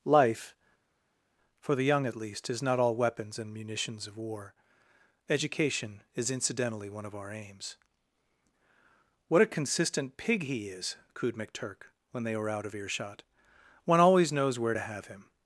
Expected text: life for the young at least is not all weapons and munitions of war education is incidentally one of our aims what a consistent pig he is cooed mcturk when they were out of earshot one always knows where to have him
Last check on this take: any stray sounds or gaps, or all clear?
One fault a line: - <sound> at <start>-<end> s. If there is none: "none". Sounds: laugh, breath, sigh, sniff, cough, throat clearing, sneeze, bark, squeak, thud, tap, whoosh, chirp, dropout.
none